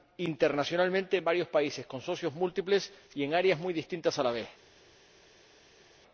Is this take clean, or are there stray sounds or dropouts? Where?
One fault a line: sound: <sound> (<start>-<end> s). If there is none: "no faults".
no faults